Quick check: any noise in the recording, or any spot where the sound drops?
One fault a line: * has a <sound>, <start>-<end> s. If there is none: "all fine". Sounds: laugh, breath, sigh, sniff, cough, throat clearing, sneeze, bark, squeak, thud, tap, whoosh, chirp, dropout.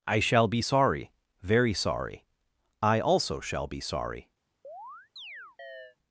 * has a chirp, 4.6-6.0 s